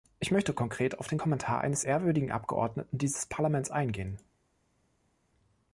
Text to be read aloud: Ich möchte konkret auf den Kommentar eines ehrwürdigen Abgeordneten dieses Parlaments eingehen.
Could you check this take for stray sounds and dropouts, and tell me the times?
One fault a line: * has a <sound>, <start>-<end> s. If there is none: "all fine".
all fine